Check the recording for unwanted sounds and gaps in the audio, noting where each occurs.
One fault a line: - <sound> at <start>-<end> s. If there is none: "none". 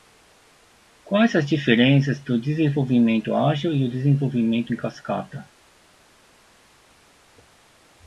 none